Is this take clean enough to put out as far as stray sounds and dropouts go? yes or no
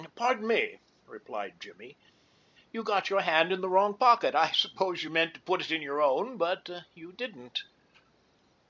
yes